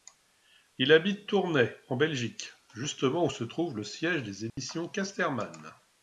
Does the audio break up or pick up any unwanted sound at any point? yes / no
yes